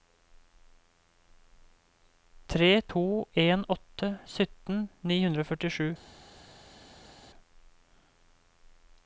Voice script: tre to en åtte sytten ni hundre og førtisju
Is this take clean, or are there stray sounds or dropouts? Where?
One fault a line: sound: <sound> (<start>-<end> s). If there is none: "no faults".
no faults